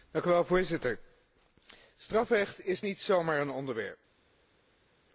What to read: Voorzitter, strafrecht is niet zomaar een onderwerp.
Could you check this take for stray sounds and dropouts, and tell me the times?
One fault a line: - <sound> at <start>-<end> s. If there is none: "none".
none